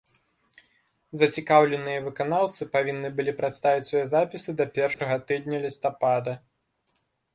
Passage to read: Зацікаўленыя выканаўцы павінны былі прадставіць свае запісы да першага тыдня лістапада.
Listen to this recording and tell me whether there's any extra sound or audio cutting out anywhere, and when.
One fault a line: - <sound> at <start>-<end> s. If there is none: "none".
- dropout at 4.9-5.0 s